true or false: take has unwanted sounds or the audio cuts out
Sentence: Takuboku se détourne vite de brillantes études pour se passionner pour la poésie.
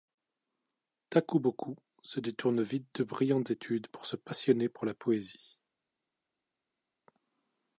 false